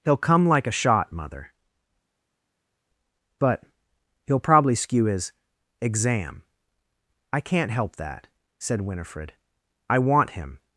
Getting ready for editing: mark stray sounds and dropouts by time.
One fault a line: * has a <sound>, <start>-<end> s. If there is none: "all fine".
all fine